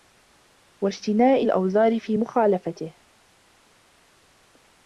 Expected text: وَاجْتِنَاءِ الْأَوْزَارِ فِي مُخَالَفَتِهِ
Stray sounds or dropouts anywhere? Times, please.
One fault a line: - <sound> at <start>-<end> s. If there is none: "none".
none